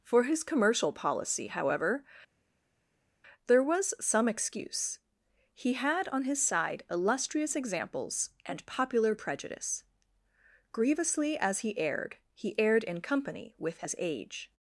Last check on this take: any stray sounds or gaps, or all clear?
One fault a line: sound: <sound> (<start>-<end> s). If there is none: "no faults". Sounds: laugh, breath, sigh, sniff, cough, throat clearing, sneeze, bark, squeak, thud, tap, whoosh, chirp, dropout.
no faults